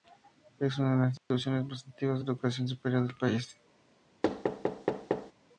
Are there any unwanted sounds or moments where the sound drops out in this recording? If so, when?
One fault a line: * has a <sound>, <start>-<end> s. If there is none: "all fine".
* has a dropout, 1.2-1.3 s
* has a thud, 4.2-5.3 s